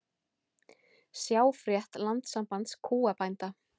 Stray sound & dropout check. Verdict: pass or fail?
pass